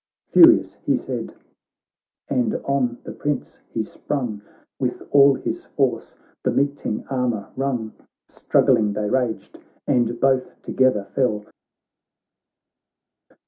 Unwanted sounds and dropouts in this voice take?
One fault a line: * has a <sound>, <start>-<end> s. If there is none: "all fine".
all fine